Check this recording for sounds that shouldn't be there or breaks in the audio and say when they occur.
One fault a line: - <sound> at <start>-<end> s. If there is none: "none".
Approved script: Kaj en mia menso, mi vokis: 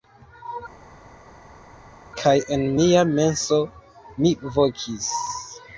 none